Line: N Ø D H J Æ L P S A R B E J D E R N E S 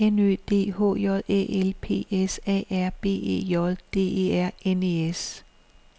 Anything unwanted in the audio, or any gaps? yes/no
no